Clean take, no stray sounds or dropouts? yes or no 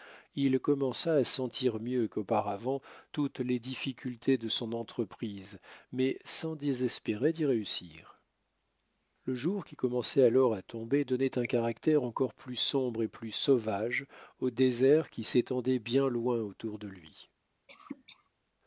no